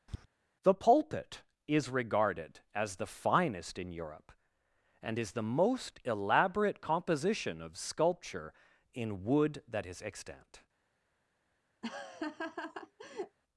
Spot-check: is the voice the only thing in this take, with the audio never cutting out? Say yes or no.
no